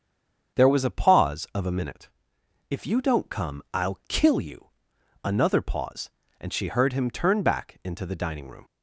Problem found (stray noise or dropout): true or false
false